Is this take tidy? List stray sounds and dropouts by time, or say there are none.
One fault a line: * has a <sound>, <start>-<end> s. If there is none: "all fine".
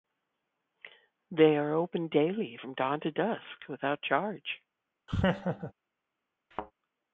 * has a laugh, 5.1-5.7 s
* has a thud, 6.5-6.7 s